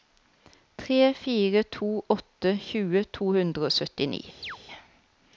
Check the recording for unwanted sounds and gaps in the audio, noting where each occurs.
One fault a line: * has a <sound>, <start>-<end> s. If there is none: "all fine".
* has a chirp, 4.4-4.6 s